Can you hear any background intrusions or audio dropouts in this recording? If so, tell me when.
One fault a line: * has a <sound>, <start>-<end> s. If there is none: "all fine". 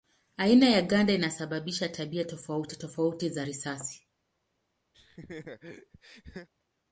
* has a laugh, 4.9-6.5 s